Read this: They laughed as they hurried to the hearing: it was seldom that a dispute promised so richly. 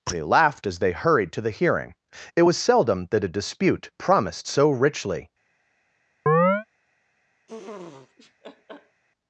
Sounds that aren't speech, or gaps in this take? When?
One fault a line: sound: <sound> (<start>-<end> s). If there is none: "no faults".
sound: chirp (6.3-6.7 s)
sound: laugh (7.5-9.0 s)